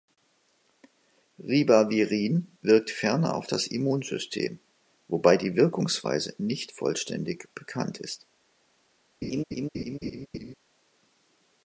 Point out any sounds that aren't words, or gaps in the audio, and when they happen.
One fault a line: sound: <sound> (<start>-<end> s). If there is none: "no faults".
sound: laugh (9.2-10.5 s)